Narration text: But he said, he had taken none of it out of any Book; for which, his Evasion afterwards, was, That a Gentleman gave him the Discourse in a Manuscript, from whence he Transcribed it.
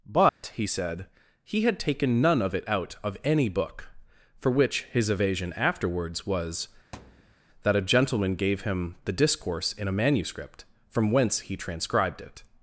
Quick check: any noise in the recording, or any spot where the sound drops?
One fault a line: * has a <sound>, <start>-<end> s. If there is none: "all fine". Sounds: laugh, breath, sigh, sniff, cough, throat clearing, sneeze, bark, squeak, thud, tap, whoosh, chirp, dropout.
* has a dropout, 0.3-0.4 s
* has a thud, 6.9-7.4 s